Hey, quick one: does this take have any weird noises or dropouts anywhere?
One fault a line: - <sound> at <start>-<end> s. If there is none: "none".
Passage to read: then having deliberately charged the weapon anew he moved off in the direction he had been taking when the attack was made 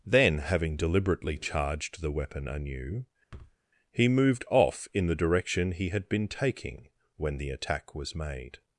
- thud at 3.3-3.6 s